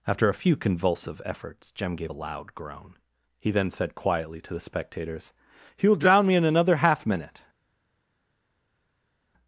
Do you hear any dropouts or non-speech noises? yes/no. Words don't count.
no